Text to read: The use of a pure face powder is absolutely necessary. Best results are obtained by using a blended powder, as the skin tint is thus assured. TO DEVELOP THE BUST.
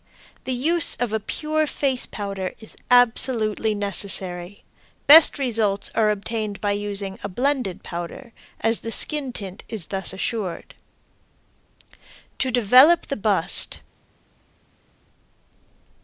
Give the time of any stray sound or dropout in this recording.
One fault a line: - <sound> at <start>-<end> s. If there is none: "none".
none